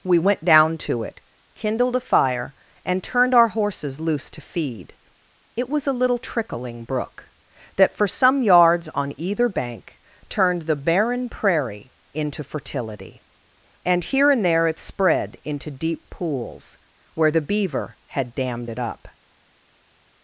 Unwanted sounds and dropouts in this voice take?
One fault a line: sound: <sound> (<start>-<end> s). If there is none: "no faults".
no faults